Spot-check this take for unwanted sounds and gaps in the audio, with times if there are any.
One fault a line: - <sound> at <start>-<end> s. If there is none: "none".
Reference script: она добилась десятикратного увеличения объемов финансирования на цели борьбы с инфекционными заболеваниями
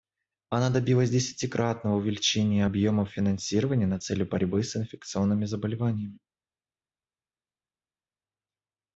none